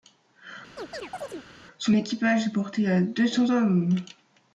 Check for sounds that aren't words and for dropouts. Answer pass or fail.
fail